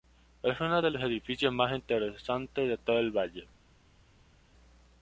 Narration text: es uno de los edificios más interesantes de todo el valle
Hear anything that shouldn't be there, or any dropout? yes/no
no